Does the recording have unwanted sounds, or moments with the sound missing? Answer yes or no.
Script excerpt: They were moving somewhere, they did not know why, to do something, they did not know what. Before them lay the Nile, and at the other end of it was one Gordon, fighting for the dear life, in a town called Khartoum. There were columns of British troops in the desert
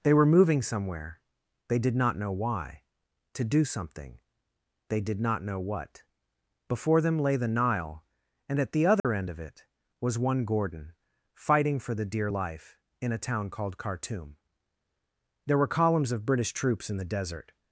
yes